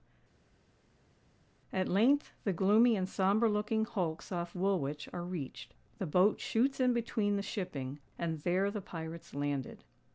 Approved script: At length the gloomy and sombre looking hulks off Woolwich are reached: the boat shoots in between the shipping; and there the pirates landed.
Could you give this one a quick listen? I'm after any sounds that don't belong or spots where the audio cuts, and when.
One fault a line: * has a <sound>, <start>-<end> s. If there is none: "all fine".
all fine